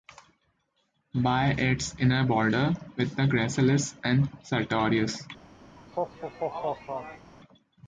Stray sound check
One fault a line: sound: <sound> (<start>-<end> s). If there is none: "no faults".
sound: laugh (5.8-7.3 s)